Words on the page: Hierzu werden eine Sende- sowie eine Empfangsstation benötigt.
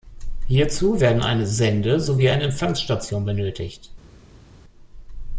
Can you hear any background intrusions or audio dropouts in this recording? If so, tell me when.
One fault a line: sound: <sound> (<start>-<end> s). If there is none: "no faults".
no faults